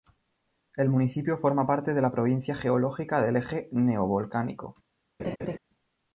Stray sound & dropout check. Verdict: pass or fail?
fail